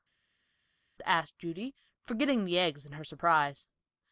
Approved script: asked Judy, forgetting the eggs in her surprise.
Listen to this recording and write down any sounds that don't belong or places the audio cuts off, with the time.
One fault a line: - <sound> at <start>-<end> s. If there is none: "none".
none